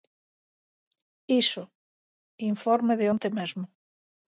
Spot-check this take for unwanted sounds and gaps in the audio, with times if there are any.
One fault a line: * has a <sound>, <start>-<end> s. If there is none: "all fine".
all fine